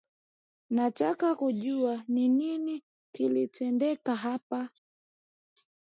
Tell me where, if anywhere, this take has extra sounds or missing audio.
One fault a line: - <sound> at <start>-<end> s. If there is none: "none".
none